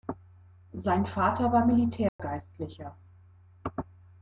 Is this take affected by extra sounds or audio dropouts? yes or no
yes